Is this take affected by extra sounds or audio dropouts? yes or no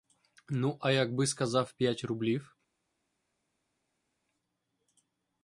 no